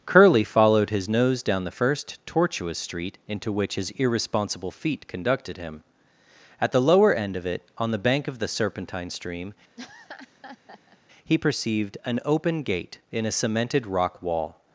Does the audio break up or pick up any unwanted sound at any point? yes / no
yes